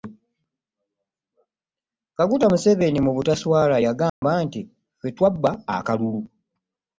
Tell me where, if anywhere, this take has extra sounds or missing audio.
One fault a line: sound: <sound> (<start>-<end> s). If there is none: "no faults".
sound: dropout (4.1-4.2 s)